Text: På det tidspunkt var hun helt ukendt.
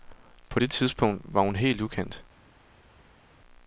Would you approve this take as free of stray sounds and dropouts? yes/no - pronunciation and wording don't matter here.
yes